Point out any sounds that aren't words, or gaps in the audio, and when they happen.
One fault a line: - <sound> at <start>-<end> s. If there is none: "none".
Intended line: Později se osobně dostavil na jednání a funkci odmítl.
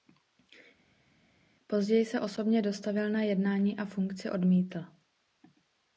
none